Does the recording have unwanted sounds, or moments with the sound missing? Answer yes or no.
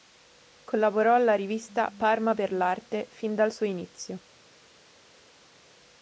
no